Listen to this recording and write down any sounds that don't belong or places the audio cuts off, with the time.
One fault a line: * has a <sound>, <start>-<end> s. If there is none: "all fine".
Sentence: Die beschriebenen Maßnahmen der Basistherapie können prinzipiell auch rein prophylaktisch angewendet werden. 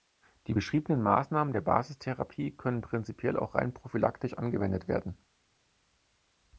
all fine